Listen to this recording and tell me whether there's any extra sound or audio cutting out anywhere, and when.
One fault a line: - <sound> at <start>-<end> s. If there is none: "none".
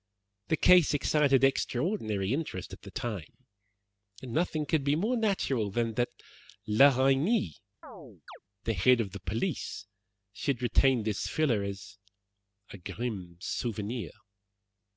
- chirp at 7.8-8.4 s